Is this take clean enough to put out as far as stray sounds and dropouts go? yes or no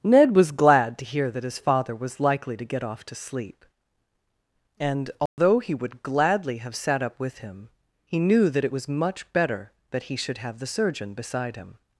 no